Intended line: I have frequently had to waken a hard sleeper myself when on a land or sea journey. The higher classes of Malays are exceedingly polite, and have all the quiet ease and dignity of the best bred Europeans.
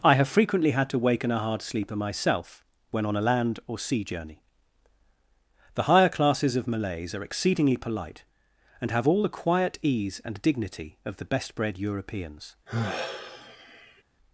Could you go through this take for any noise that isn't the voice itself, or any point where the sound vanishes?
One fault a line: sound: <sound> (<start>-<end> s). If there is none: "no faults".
sound: sigh (12.7-14.0 s)